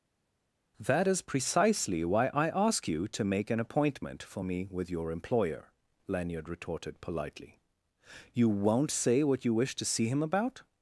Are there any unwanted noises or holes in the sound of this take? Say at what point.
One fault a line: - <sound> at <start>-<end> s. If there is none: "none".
none